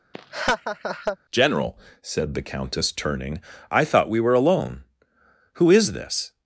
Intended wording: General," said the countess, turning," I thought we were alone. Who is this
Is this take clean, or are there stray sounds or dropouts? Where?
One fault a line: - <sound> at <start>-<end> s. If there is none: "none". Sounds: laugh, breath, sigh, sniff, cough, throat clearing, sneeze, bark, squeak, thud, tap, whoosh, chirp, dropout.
- laugh at 0.1-1.2 s